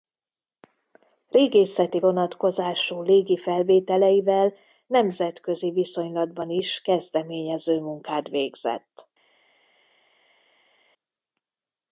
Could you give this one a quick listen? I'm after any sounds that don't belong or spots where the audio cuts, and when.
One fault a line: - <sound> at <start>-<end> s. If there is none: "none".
none